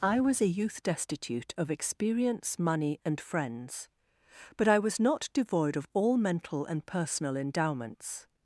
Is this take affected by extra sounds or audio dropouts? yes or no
no